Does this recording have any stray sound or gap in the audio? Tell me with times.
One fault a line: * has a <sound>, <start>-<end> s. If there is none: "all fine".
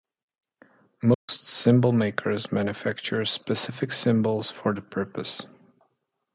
* has a dropout, 1.1-1.3 s